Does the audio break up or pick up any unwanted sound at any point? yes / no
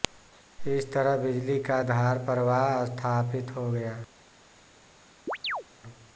yes